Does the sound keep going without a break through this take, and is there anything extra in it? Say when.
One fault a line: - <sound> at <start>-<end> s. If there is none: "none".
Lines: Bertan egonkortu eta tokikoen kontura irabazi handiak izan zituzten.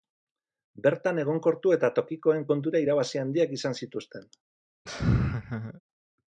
- laugh at 4.9-5.8 s